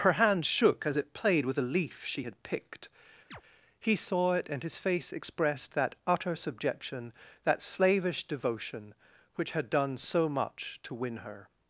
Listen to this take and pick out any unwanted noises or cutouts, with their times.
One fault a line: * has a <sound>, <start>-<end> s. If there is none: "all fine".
* has a chirp, 3.3-3.4 s